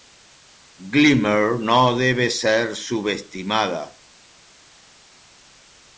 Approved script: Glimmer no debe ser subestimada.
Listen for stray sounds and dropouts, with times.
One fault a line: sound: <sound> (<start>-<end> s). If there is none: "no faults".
no faults